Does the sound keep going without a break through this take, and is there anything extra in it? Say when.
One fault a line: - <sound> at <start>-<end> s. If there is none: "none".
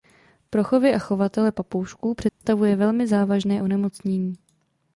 - dropout at 2.3-2.4 s